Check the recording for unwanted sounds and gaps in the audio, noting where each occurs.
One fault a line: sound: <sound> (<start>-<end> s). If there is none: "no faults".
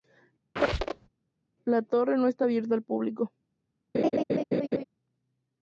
sound: squeak (0.6-1.1 s)
sound: laugh (3.9-4.8 s)